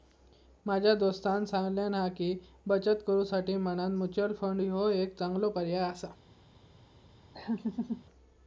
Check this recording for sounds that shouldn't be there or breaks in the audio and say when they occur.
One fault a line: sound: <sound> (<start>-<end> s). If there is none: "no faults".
sound: laugh (7.3-8.0 s)